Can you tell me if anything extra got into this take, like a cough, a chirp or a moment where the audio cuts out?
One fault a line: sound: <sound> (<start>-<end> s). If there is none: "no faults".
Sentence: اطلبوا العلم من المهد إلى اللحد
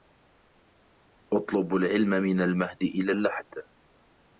no faults